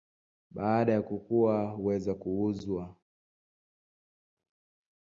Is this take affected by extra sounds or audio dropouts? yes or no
no